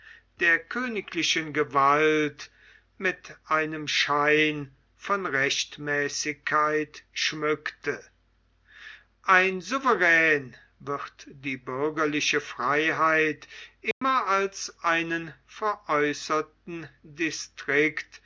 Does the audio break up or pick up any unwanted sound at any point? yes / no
yes